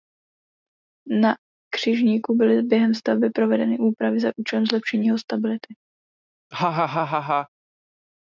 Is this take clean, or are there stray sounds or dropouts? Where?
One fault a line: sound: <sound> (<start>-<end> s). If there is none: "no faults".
sound: laugh (6.5-7.5 s)